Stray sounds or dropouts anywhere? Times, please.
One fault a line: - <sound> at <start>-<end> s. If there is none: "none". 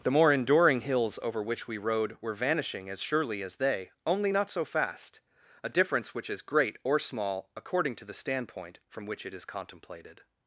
none